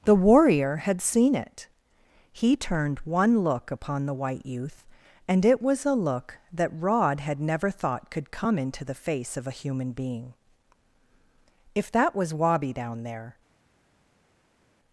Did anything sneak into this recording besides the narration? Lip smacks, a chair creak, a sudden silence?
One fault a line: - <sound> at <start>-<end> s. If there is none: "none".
none